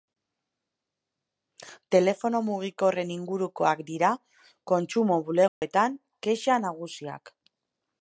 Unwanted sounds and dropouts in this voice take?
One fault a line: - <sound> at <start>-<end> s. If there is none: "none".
- dropout at 5.5-5.6 s